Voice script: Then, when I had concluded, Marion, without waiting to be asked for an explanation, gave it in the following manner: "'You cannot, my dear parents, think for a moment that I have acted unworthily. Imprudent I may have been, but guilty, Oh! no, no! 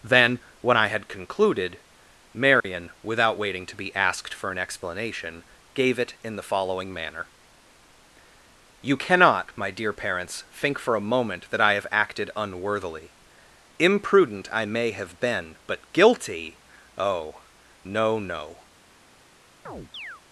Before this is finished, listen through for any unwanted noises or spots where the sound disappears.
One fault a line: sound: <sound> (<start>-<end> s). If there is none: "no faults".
sound: dropout (2.6-2.6 s)
sound: chirp (19.7-20.2 s)